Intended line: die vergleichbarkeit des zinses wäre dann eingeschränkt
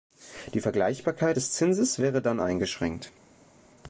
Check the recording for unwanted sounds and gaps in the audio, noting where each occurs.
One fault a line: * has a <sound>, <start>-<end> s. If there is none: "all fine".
all fine